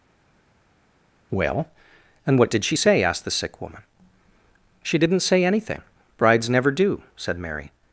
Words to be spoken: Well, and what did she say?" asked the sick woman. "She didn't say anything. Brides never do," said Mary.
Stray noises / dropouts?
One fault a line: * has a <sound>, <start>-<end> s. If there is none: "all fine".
all fine